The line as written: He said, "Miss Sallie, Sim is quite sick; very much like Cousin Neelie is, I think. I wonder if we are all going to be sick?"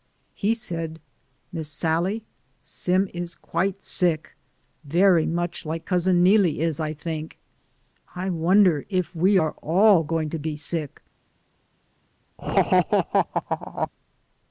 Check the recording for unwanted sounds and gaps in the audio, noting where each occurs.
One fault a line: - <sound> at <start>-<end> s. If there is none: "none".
- laugh at 12.4-13.9 s